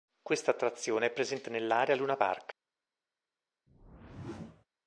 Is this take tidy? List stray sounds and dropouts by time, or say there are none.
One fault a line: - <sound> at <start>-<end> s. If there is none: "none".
- whoosh at 3.7-4.7 s